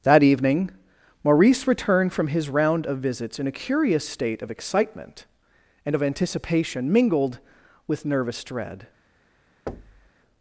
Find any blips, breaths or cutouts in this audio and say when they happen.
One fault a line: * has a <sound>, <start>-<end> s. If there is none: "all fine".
* has a thud, 9.7-10.1 s